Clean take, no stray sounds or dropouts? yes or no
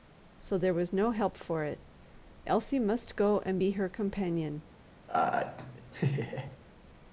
no